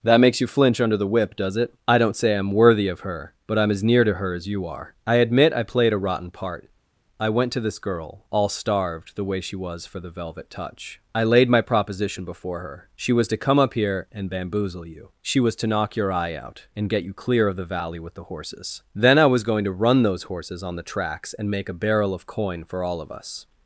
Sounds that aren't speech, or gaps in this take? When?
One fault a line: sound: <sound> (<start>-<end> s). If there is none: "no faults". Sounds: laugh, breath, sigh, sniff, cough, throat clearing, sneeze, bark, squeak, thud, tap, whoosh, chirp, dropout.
no faults